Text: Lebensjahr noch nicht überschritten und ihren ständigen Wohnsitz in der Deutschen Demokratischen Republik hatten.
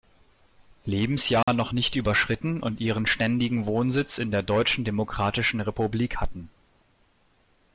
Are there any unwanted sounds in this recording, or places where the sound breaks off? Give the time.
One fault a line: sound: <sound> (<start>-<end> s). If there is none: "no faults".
sound: dropout (1.4-1.5 s)